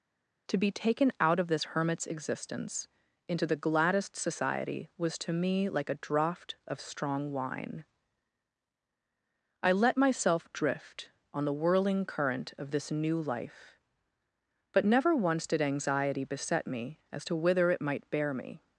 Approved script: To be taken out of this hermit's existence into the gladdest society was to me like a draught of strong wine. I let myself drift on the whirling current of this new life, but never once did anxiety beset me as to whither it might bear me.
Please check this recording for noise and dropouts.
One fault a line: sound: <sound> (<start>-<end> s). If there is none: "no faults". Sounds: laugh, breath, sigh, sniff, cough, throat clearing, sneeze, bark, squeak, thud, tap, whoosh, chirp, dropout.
no faults